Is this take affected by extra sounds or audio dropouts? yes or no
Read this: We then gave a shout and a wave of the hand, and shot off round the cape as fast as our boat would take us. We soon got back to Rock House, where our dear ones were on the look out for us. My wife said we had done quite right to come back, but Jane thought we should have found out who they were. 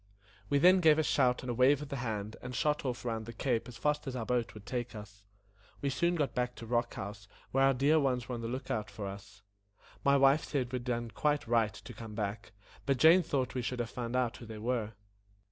no